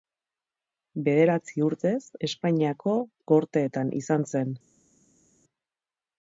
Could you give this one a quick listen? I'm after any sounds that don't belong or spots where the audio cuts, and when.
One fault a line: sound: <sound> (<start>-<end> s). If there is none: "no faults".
no faults